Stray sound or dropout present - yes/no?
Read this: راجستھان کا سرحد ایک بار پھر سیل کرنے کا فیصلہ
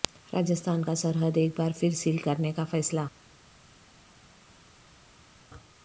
no